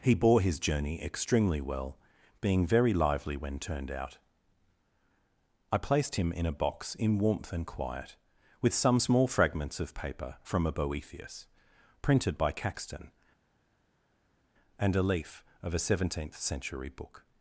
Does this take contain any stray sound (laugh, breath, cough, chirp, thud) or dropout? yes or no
no